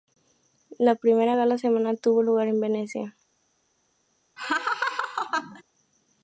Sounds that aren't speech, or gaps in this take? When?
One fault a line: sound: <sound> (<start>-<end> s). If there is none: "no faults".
sound: laugh (4.4-5.6 s)